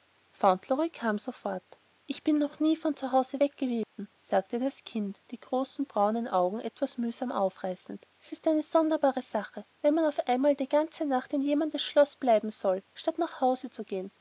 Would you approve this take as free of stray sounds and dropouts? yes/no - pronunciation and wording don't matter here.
no